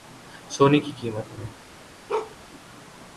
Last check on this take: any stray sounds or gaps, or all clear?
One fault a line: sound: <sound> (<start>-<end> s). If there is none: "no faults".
sound: bark (2.1-2.4 s)